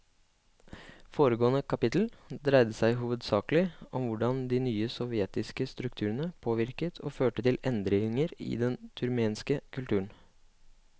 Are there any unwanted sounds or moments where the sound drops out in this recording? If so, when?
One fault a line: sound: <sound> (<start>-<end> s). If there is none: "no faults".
no faults